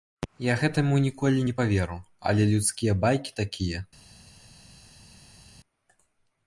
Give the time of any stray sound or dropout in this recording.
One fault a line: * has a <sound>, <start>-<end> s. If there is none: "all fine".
all fine